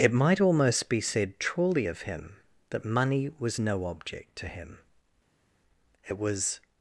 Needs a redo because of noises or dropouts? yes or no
no